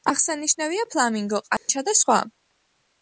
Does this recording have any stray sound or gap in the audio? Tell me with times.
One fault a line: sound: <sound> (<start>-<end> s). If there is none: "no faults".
sound: dropout (1.6-1.7 s)